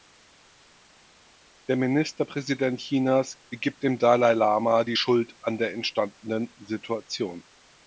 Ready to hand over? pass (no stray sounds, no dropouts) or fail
pass